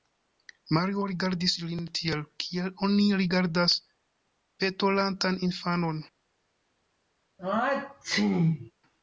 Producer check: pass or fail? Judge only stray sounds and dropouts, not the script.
fail